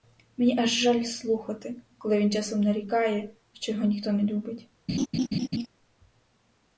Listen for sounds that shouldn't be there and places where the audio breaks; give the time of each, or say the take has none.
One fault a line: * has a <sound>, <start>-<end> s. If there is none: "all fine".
* has a laugh, 4.9-5.7 s